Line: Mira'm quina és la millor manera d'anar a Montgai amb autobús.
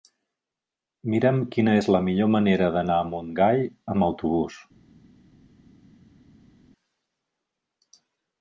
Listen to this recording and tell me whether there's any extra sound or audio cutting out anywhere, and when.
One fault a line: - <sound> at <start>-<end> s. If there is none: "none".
none